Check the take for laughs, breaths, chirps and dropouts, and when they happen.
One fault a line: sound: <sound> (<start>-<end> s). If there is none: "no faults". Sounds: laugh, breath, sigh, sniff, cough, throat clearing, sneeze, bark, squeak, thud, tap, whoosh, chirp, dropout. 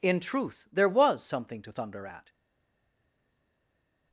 no faults